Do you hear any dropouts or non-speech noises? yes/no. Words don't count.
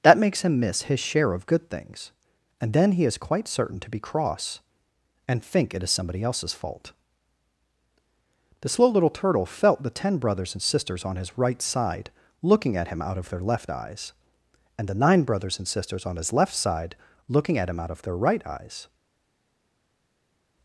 no